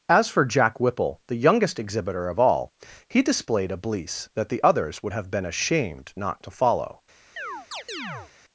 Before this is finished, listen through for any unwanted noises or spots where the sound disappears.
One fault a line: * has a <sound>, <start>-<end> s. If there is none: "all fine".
* has a chirp, 7.4-8.3 s